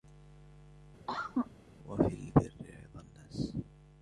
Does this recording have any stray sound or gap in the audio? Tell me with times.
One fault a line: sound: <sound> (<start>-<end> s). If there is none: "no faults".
sound: cough (1.1-1.5 s)